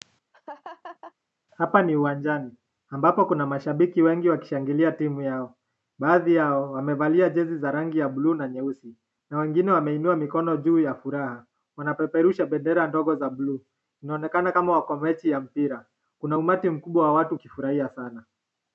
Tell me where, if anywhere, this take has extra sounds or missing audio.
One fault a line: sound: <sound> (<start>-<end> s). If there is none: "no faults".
sound: laugh (0.3-1.1 s)